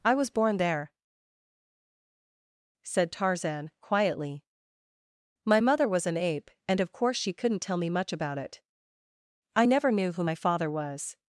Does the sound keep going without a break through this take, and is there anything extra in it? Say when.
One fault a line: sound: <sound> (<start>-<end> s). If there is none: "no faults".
no faults